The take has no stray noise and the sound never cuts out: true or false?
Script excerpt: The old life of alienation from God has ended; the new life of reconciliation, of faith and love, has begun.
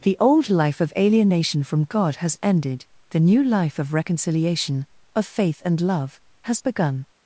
true